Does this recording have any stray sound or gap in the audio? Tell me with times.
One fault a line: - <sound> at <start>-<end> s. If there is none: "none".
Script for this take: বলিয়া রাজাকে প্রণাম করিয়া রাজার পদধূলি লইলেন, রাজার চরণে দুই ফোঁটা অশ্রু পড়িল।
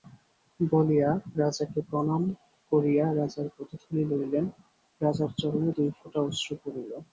none